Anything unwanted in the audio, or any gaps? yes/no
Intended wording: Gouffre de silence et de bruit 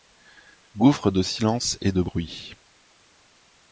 no